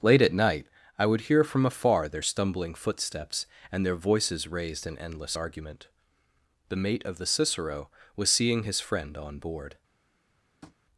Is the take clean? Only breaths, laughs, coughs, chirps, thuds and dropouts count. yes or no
no